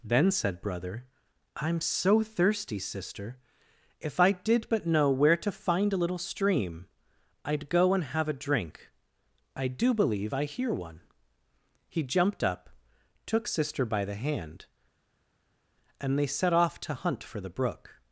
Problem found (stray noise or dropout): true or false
false